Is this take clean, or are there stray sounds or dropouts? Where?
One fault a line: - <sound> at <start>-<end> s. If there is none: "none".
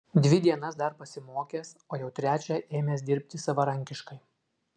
none